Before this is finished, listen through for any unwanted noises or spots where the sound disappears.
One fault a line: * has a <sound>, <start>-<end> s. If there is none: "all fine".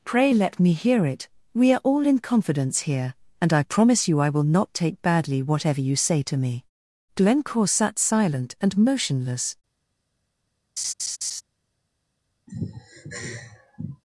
* has a laugh, 10.8-11.4 s
* has a sigh, 12.5-14.0 s